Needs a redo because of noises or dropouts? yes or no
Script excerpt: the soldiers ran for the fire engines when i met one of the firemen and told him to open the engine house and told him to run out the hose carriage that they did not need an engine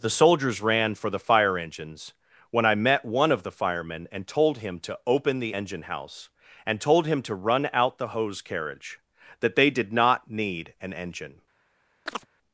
yes